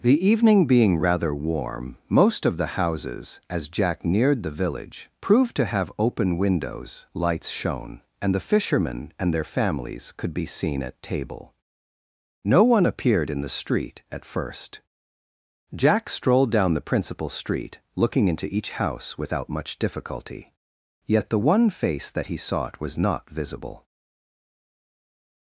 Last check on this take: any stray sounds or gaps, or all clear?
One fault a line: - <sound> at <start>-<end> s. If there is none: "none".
none